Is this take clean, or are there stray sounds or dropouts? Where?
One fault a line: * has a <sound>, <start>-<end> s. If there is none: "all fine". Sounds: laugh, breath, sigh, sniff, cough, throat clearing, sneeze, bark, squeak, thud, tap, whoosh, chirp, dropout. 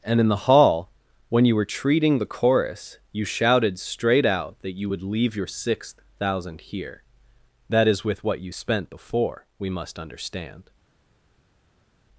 all fine